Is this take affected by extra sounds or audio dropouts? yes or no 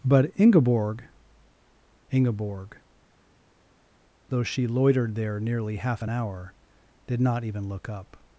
no